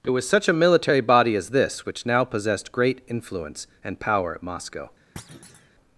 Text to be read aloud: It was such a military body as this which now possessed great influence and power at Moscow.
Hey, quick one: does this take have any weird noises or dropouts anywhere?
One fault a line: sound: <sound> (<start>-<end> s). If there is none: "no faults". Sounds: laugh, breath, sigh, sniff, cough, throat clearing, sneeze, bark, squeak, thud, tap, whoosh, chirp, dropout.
sound: thud (5.2-5.7 s)